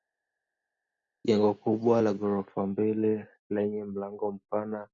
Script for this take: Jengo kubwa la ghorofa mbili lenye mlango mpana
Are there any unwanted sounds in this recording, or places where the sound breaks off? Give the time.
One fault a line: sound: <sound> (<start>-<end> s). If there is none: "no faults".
no faults